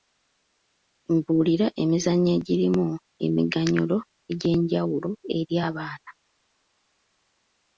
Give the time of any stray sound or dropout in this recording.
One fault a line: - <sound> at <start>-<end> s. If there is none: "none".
none